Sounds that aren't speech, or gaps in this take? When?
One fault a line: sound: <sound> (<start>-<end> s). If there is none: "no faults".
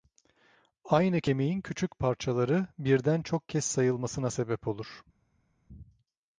no faults